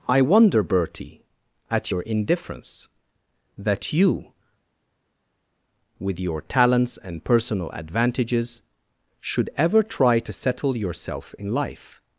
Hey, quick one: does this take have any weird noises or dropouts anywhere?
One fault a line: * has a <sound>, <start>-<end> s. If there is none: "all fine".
all fine